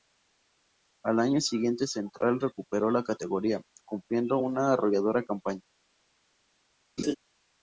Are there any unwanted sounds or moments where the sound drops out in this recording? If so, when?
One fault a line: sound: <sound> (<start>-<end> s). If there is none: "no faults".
sound: laugh (7.0-7.2 s)